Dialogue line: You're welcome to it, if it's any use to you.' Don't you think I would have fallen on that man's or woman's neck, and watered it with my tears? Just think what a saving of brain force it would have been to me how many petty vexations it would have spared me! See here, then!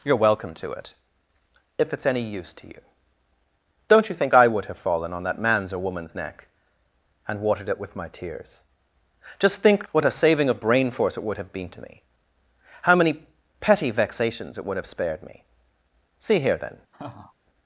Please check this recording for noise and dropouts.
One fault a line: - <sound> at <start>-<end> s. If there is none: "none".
- laugh at 16.9-17.3 s